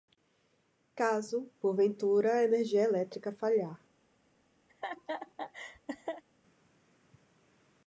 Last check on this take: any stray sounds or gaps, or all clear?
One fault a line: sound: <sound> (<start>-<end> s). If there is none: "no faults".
sound: laugh (4.7-6.2 s)